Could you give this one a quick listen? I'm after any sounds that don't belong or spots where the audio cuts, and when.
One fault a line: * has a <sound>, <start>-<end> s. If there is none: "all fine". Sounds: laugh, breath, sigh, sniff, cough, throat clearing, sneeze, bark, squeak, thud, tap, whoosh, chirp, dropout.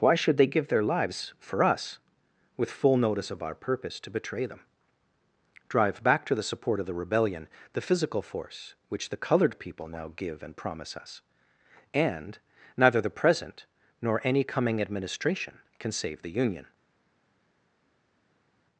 all fine